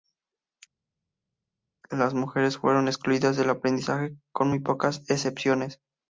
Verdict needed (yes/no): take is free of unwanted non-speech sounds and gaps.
yes